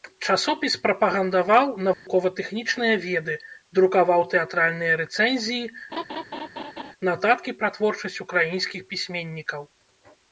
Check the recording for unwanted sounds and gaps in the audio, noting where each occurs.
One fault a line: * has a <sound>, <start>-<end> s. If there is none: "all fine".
* has a dropout, 1.9-2.1 s
* has a laugh, 5.9-6.9 s